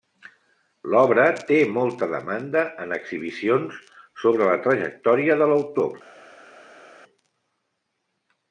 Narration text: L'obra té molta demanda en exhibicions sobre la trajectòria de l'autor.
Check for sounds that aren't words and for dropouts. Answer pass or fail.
pass